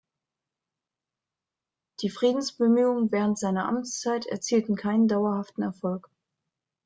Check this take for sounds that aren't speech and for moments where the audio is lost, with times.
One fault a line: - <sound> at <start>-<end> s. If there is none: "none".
none